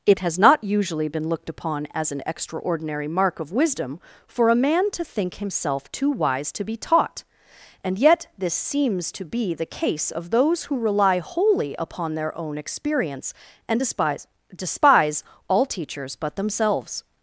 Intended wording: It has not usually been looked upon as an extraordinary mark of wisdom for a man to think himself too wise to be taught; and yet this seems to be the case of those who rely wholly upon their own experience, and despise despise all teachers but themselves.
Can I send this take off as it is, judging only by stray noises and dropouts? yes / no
yes